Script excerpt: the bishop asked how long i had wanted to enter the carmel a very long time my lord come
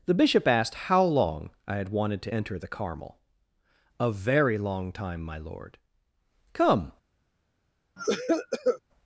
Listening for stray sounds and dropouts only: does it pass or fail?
fail